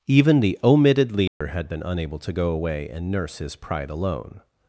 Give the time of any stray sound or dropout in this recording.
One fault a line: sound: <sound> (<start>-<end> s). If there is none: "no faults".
sound: dropout (1.3-1.4 s)